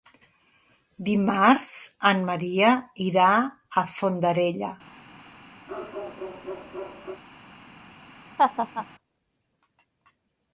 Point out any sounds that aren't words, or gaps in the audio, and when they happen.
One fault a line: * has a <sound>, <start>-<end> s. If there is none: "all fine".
* has a bark, 5.7-7.2 s
* has a laugh, 8.4-8.9 s